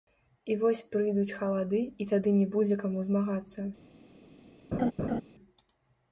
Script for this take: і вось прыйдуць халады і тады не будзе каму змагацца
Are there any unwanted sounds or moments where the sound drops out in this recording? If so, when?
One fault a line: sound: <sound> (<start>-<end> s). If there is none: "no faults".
sound: laugh (4.7-5.2 s)